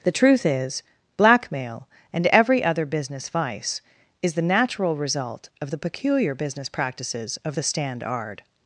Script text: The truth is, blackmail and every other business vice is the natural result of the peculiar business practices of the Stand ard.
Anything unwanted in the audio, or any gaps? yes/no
no